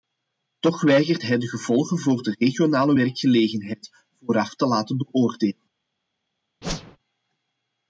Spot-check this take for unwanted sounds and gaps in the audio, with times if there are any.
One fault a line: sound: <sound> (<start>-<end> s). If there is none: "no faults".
sound: whoosh (6.6-7.0 s)